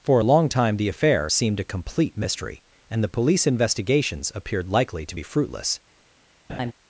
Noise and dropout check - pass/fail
fail